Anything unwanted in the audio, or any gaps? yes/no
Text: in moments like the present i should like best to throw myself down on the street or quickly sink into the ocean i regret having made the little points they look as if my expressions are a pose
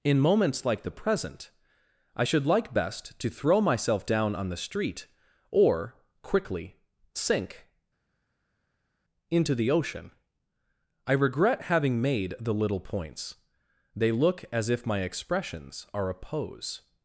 no